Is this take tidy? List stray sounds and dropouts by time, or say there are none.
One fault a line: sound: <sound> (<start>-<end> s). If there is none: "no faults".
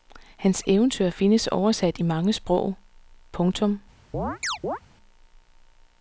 sound: chirp (4.1-4.8 s)